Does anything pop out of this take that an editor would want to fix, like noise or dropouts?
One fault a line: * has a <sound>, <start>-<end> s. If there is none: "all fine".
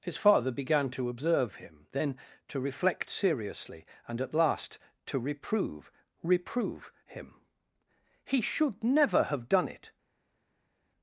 all fine